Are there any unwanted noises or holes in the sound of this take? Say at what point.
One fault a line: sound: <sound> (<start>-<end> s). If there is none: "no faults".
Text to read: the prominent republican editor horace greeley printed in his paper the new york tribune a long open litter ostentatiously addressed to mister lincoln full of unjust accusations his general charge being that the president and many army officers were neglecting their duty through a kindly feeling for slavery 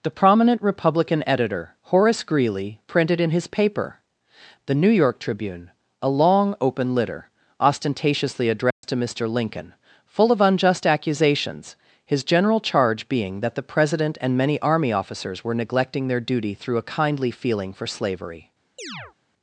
sound: dropout (8.7-8.8 s)
sound: chirp (18.8-19.1 s)